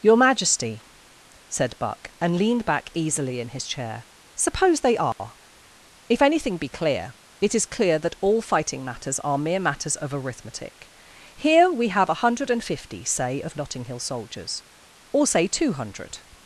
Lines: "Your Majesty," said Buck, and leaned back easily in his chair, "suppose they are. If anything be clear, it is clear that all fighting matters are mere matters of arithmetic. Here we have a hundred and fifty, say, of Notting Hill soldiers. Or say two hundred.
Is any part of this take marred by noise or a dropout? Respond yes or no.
yes